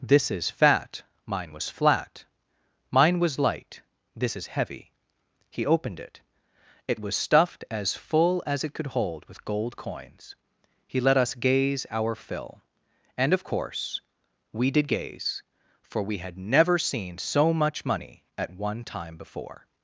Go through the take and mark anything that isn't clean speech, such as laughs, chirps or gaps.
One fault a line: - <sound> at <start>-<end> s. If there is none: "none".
none